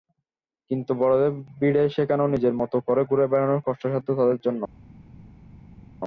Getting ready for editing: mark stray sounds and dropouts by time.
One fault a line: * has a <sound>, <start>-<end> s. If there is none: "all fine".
all fine